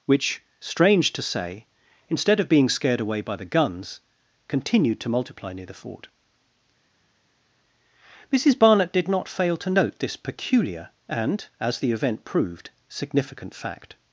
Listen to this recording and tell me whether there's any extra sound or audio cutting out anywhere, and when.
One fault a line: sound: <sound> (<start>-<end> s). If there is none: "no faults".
no faults